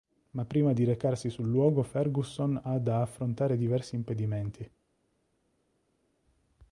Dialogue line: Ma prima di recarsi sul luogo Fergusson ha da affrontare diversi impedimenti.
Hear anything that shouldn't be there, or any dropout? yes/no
no